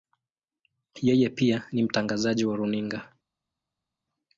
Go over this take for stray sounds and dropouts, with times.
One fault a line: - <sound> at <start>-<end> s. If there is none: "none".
none